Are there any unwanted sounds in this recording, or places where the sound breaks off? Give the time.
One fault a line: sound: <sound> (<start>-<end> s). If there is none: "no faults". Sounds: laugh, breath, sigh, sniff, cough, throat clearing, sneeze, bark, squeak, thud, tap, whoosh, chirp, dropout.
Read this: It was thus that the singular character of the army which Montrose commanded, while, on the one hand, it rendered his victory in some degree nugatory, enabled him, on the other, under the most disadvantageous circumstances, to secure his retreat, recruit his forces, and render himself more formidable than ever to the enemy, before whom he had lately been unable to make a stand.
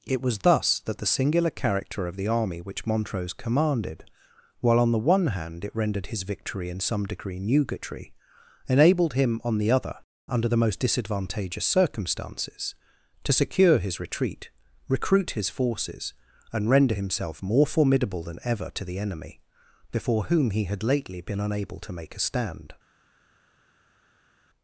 no faults